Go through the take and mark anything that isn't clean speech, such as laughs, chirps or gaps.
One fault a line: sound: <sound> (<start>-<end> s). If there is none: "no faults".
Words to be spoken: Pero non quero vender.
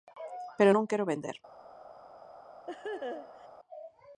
sound: laugh (2.7-3.5 s)